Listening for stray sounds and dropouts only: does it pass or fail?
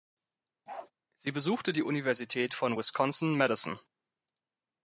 fail